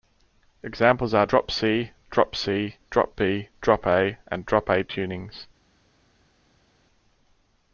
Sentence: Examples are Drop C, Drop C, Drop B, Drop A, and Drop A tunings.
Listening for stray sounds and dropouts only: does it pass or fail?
pass